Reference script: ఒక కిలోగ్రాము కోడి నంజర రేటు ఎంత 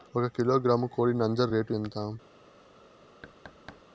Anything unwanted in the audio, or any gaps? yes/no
yes